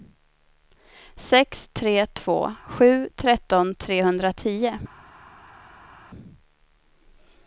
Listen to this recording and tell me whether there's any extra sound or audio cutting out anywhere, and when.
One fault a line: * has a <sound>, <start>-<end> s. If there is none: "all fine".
all fine